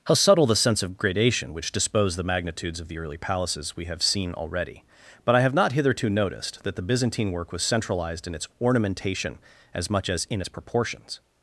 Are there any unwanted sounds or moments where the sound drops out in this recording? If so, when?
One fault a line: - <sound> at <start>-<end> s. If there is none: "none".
none